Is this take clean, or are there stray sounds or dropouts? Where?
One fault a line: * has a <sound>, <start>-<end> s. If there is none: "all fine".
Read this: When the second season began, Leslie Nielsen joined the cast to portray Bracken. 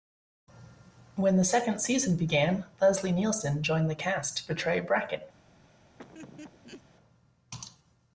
* has a laugh, 6.0-6.8 s